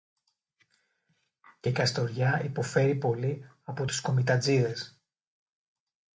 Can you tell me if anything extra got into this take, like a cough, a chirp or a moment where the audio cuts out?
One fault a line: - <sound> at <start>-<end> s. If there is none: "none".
none